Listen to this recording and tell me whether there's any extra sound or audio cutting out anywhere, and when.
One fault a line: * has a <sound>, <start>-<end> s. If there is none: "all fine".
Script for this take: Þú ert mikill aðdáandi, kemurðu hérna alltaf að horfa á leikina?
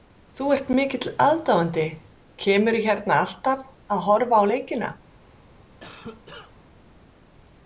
* has a cough, 5.8-6.5 s